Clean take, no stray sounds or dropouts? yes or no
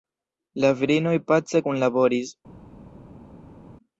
yes